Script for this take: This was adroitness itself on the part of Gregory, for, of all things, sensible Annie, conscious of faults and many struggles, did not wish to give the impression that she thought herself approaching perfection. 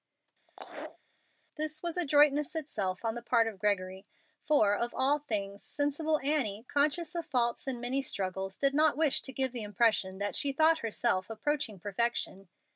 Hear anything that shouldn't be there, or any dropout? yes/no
yes